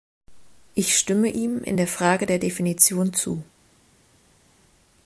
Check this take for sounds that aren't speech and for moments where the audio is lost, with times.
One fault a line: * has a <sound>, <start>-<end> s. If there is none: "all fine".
all fine